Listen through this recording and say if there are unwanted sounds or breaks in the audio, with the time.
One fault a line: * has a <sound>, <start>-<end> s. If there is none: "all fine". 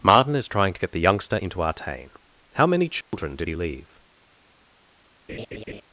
* has a dropout, 3.0-3.1 s
* has a laugh, 5.3-5.8 s